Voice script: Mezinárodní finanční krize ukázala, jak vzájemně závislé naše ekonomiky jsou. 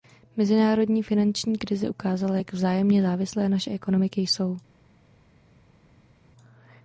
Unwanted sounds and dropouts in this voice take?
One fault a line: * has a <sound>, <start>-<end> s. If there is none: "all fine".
all fine